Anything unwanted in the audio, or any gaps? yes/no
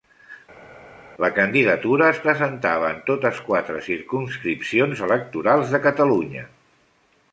no